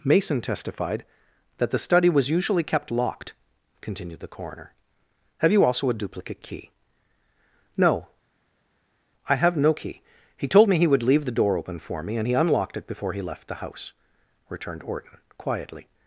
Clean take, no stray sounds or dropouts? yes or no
yes